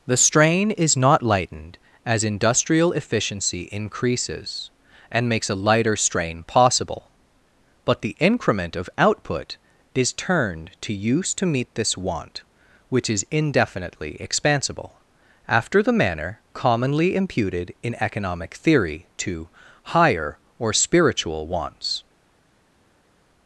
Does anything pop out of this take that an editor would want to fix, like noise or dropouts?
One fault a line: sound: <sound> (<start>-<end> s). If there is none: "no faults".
no faults